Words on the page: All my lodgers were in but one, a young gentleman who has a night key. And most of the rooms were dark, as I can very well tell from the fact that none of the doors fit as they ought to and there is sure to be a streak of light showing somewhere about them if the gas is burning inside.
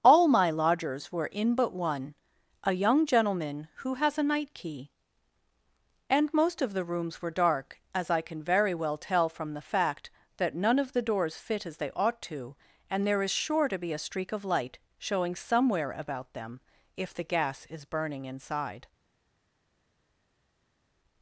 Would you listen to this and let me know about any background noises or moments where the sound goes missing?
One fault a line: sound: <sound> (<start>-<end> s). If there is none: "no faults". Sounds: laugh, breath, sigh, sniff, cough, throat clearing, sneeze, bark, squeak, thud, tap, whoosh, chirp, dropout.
no faults